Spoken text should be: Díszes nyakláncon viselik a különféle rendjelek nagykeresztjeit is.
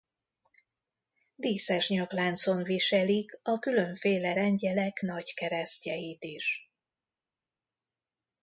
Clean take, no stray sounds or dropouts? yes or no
yes